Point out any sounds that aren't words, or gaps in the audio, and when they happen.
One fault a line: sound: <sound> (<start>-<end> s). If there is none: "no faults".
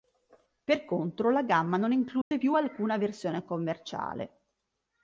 sound: dropout (2.2-2.3 s)